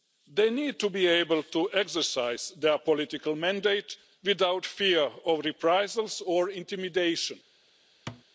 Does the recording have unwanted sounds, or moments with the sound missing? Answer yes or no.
yes